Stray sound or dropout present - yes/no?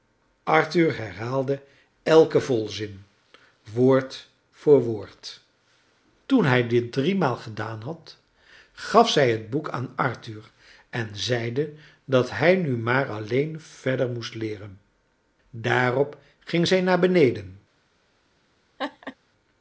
yes